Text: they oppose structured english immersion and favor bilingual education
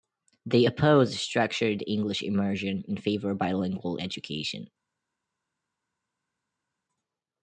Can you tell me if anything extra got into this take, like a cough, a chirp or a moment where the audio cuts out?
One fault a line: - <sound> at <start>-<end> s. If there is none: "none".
none